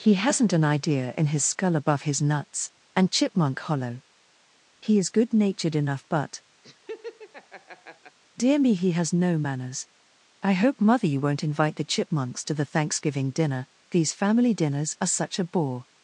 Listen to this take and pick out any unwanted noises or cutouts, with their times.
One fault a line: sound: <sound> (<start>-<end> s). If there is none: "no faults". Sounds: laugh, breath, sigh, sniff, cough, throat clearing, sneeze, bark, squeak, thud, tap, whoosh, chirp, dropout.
sound: laugh (6.6-8.2 s)